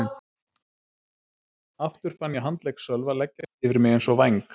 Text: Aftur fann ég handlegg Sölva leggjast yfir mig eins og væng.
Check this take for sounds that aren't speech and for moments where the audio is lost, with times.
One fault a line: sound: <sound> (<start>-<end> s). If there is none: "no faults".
no faults